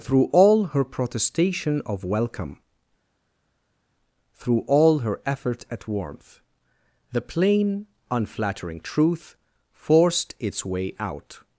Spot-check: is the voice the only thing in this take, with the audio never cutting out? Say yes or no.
yes